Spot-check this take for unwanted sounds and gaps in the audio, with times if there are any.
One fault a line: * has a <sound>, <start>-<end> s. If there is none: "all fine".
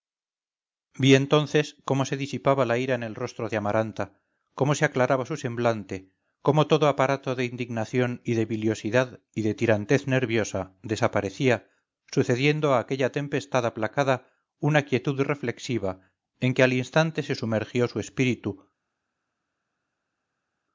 all fine